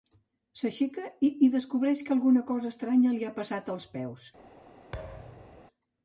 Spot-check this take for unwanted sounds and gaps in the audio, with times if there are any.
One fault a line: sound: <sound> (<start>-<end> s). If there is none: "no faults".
sound: thud (4.9-5.6 s)